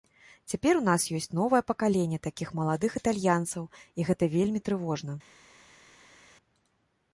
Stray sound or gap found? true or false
false